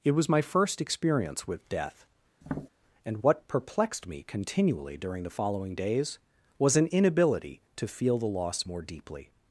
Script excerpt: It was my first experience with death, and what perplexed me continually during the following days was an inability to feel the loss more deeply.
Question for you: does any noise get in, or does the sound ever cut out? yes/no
yes